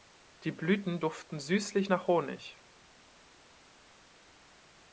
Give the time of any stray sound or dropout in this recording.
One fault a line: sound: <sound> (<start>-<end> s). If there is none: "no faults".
no faults